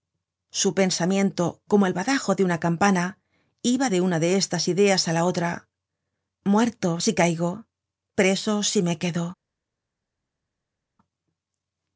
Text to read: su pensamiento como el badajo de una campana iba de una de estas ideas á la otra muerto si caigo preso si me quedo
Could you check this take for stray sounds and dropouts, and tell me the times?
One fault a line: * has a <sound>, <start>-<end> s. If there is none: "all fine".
all fine